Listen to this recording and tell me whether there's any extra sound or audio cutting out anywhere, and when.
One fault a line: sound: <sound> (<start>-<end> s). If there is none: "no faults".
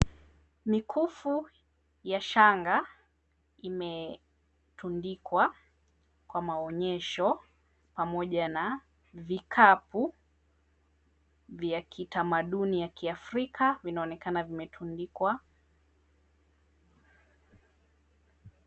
no faults